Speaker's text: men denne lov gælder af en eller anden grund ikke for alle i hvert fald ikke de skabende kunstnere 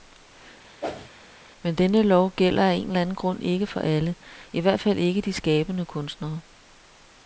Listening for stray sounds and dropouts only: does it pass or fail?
fail